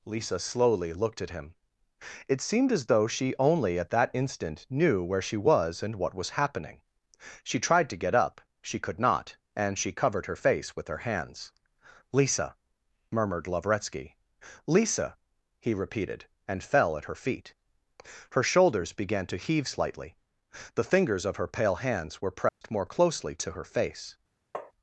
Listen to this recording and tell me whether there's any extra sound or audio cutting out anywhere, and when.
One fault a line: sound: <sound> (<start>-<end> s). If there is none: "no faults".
sound: dropout (22.5-22.6 s)
sound: tap (24.5-24.7 s)